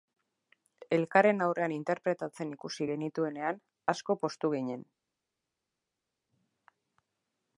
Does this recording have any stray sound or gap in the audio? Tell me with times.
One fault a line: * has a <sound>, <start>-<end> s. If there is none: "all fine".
all fine